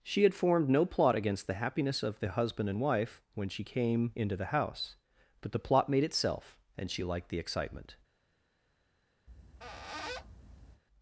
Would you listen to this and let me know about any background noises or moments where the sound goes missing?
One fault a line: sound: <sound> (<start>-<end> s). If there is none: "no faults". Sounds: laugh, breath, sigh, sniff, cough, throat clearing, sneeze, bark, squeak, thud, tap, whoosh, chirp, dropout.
sound: squeak (9.3-10.8 s)